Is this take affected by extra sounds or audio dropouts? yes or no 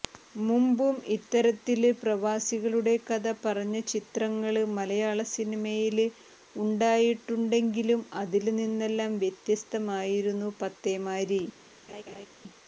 yes